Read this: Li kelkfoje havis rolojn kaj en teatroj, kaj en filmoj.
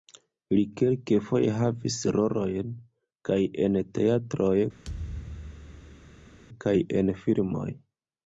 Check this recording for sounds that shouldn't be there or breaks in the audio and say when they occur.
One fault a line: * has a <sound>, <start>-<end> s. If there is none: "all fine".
* has a thud, 4.8-6.4 s